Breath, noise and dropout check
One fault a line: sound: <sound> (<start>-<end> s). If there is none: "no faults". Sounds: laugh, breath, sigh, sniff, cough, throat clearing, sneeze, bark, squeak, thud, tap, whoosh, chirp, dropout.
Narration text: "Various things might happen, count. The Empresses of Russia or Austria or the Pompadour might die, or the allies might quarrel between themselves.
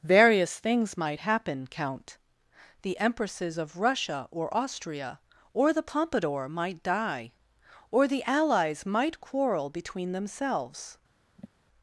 sound: sigh (11.4-11.5 s)